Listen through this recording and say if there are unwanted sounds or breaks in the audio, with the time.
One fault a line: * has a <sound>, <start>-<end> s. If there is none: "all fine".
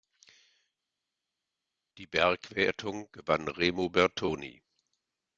all fine